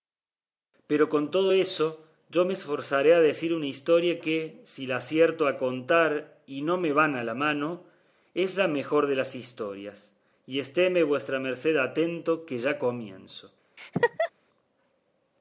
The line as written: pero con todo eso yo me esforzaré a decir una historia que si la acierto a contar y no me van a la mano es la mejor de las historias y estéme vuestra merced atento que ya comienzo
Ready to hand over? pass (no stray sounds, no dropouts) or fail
fail